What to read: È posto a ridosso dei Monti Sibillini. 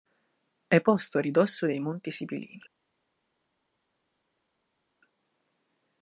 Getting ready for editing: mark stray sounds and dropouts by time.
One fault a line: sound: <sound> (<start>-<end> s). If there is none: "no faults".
no faults